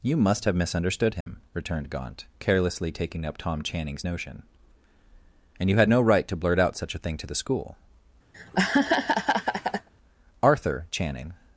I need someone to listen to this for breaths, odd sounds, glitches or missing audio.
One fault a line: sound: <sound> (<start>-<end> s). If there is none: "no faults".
sound: dropout (1.2-1.3 s)
sound: laugh (8.3-9.9 s)